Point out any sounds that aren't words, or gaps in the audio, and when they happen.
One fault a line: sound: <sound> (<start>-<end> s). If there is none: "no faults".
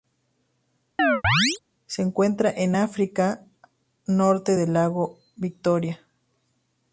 sound: chirp (1.0-1.6 s)